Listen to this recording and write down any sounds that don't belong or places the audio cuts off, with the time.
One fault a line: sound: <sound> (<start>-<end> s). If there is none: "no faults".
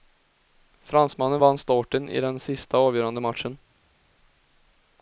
no faults